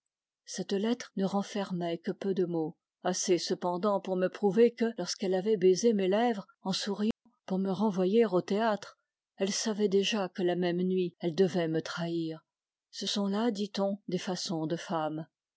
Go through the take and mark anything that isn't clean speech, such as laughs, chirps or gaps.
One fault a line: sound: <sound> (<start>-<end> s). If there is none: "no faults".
sound: dropout (7.1-7.3 s)